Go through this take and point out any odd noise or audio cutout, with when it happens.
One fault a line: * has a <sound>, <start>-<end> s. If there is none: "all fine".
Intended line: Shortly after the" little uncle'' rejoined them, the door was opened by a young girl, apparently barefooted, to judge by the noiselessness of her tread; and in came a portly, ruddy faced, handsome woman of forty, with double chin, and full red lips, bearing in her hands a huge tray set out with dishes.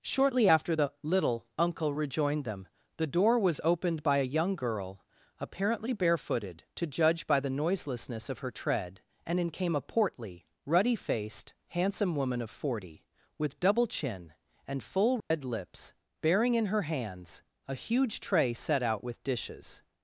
* has a dropout, 15.2-15.3 s